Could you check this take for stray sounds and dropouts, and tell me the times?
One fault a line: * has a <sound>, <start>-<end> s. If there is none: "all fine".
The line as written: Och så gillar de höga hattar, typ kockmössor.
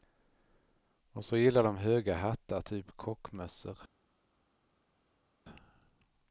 all fine